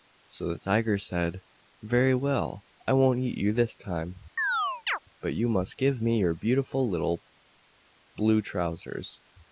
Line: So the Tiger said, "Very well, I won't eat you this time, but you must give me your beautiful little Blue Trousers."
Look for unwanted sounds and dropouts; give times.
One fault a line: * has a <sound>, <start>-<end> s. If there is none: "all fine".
* has a chirp, 4.4-5.0 s